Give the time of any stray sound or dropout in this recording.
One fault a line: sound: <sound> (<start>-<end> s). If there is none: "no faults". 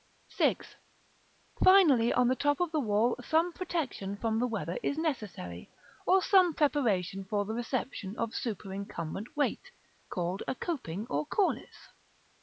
no faults